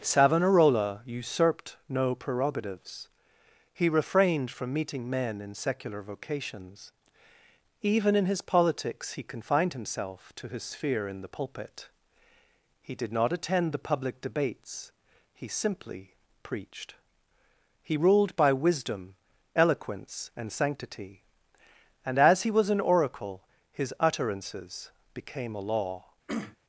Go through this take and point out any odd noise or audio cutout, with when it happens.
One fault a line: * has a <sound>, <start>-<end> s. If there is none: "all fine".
* has a throat clearing, 26.3-26.6 s